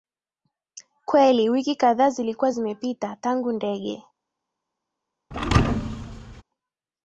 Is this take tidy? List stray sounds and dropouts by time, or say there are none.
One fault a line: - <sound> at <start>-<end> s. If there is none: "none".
- thud at 5.3-6.4 s